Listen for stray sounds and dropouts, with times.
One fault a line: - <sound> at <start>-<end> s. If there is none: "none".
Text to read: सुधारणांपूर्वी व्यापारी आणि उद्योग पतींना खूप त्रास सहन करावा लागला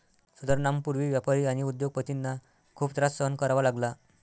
none